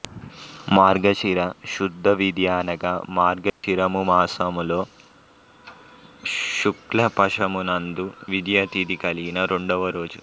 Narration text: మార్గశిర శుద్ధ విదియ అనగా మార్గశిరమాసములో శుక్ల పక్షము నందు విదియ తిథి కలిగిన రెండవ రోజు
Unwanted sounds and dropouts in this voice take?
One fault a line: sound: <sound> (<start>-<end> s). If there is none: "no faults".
sound: dropout (3.5-3.6 s)